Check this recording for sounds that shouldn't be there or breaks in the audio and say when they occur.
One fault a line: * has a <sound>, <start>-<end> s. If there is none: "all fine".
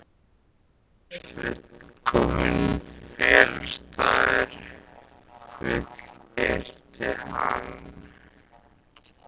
all fine